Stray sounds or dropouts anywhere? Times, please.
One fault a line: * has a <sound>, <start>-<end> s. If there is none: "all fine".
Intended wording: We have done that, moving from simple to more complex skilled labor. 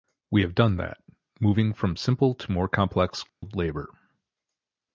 * has a dropout, 3.3-3.4 s